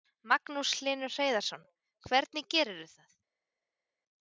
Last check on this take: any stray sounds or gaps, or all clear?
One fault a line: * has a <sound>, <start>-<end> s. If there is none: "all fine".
all fine